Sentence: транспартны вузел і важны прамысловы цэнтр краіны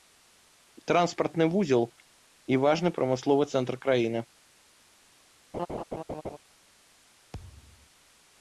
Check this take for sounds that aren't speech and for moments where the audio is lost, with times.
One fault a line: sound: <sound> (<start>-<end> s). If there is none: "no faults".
sound: laugh (5.5-6.4 s)
sound: thud (7.3-7.9 s)